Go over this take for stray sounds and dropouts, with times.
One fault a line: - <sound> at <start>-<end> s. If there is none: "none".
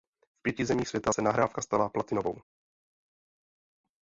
none